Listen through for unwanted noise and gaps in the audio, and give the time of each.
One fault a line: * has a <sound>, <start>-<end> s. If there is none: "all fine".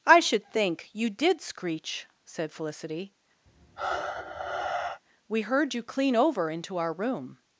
* has a sigh, 3.5-5.0 s